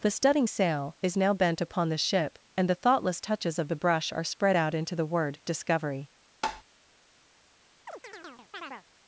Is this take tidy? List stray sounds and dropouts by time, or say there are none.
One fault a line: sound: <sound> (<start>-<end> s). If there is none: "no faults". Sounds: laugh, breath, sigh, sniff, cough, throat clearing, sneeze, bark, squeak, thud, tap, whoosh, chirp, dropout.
sound: tap (6.4-6.6 s)
sound: chirp (7.9-8.9 s)